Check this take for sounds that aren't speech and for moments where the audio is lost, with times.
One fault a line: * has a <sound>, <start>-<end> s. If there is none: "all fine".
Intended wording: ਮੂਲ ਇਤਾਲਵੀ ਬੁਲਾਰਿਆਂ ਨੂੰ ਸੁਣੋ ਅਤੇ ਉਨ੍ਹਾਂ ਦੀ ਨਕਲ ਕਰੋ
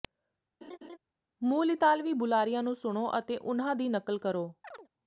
* has a laugh, 0.6-1.0 s
* has a chirp, 4.6-4.9 s